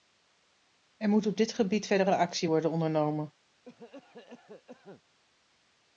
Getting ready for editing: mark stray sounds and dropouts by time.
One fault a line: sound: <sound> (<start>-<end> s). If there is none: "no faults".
sound: cough (3.7-5.0 s)